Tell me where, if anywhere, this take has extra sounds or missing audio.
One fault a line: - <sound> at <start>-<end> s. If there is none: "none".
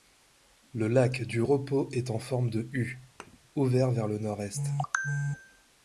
- thud at 3.2-3.4 s